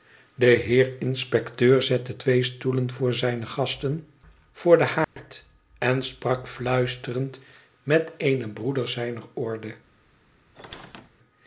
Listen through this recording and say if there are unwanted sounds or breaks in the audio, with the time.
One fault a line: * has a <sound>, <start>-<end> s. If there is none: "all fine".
* has a dropout, 5.0-5.2 s
* has a squeak, 10.6-11.1 s